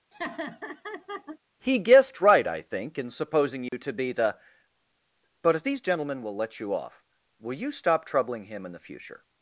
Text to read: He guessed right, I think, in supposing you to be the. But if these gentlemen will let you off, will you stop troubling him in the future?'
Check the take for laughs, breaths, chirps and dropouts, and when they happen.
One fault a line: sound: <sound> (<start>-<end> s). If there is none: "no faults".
sound: laugh (0.1-1.4 s)
sound: dropout (3.7-3.7 s)